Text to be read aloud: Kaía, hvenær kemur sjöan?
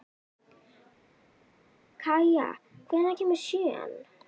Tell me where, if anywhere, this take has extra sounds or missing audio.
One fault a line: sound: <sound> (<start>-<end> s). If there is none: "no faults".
no faults